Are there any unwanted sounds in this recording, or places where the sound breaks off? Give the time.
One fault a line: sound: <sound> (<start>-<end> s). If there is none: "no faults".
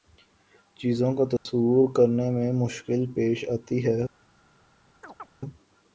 sound: dropout (1.4-1.5 s)
sound: chirp (5.0-5.3 s)